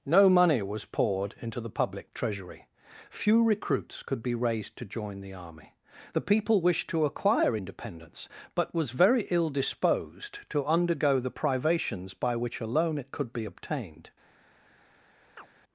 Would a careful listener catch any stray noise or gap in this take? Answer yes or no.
yes